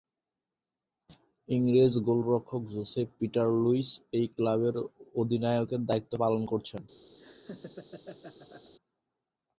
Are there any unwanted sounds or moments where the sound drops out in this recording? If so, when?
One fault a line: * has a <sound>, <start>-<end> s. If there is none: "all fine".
* has a laugh, 7.2-8.7 s